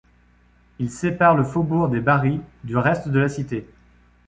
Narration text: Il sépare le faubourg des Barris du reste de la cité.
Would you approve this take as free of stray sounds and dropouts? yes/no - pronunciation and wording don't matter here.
yes